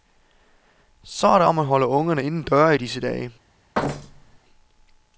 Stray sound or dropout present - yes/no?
yes